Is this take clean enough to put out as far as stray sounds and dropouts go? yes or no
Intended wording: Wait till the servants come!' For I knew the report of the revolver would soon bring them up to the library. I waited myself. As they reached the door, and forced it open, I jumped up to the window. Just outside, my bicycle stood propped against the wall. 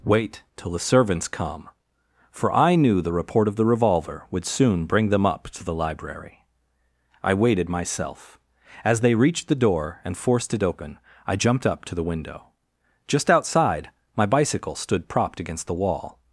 yes